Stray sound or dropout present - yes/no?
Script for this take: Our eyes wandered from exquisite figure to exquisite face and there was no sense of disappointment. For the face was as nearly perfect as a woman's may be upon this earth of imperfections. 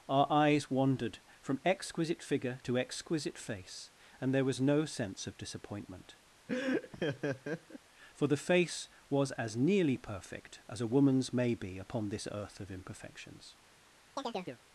yes